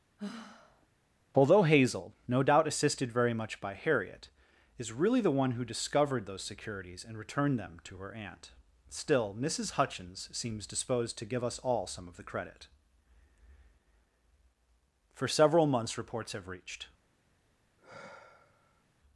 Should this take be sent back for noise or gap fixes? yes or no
yes